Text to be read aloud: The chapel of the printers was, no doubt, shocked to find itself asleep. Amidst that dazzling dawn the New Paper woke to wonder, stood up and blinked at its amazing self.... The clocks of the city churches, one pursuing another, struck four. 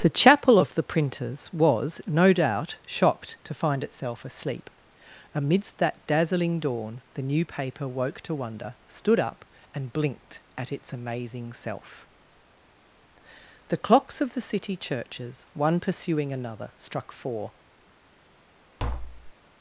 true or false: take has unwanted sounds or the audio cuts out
true